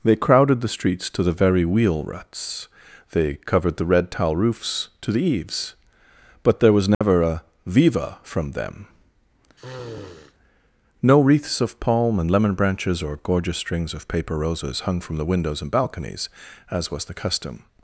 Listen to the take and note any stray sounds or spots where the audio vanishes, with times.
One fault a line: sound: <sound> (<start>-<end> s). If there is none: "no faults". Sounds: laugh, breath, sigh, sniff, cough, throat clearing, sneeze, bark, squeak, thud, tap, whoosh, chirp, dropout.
sound: dropout (6.9-7.0 s)
sound: sniff (9.6-10.3 s)